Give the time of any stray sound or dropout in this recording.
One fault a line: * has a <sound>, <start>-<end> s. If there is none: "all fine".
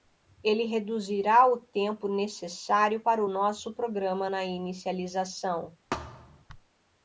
* has a thud, 5.9-6.4 s